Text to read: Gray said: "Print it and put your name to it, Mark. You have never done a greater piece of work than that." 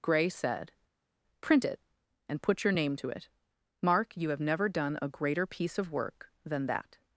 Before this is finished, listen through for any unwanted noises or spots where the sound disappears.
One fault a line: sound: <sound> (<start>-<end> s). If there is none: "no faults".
no faults